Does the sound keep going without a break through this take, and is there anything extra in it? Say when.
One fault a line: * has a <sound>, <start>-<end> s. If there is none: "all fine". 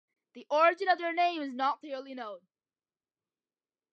all fine